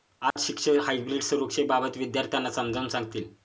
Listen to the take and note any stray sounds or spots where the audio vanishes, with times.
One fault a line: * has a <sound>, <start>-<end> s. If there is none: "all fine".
* has a dropout, 0.3-0.4 s